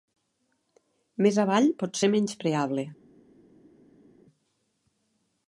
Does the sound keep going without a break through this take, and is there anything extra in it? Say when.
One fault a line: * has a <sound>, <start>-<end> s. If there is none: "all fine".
all fine